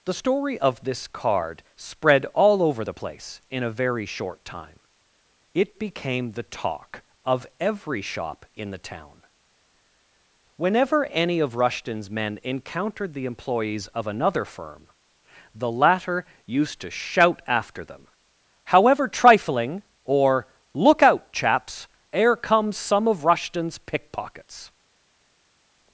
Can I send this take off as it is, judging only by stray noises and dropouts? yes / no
yes